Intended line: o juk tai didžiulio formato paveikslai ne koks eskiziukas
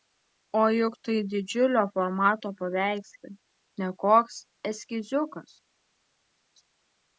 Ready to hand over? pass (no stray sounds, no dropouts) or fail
pass